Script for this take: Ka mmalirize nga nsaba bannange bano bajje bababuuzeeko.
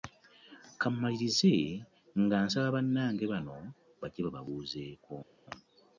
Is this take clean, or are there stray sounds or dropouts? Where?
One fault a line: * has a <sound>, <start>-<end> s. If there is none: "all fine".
all fine